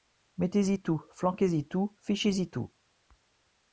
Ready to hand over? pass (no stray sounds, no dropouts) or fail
pass